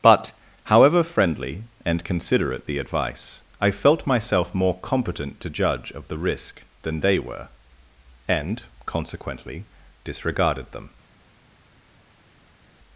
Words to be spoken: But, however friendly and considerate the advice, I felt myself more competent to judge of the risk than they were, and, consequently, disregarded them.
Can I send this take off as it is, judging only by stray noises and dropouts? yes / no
yes